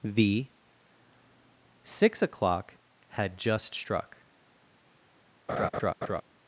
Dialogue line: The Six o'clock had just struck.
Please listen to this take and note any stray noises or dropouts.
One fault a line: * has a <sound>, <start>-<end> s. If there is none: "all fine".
* has a laugh, 5.5-6.2 s